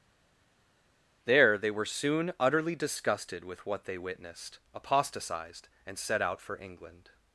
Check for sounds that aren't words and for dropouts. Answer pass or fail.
pass